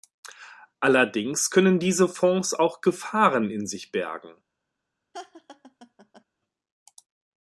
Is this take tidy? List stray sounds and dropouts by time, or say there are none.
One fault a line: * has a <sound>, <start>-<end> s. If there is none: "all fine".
* has a laugh, 5.1-6.2 s